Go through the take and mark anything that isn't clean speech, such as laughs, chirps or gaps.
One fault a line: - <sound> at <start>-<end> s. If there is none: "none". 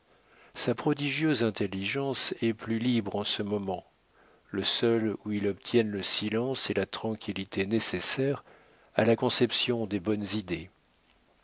none